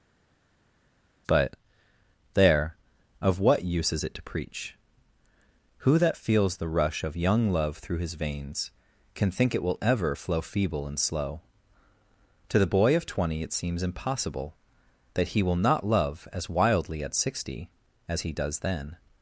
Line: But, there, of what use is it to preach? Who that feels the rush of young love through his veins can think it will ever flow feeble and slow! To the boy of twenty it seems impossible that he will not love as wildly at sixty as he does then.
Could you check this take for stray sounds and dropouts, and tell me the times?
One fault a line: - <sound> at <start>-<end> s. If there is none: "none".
none